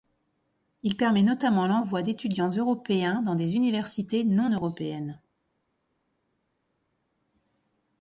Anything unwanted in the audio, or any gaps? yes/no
no